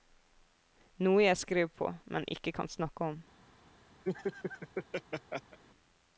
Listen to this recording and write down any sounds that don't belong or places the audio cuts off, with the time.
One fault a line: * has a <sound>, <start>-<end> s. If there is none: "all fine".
* has a laugh, 4.0-5.6 s